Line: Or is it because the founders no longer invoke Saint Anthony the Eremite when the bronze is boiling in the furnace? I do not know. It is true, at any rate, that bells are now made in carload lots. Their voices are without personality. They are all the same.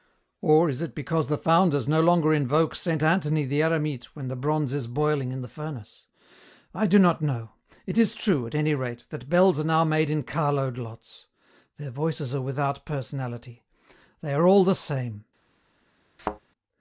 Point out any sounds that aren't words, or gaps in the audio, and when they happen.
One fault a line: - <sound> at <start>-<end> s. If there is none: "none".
- thud at 16.2-16.4 s